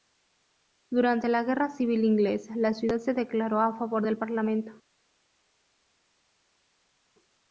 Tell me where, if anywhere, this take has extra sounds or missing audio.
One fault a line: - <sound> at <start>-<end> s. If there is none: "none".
none